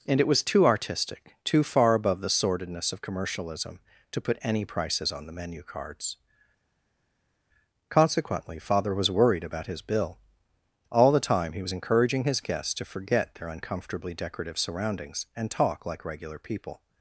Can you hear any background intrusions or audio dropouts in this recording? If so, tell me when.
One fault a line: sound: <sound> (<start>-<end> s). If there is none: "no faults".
no faults